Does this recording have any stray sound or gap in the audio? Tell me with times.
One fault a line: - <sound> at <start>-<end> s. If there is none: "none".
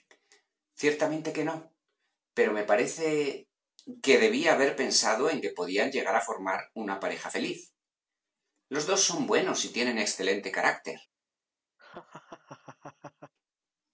- laugh at 11.8-13.3 s